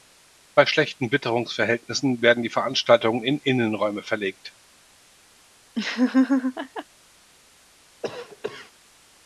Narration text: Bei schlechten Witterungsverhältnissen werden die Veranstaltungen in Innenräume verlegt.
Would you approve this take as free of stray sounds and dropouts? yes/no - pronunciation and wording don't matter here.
no